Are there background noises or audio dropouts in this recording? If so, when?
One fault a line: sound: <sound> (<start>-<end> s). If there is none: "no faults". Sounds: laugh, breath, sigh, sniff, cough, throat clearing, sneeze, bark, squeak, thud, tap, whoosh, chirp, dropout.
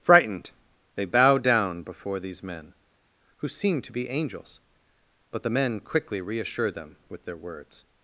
no faults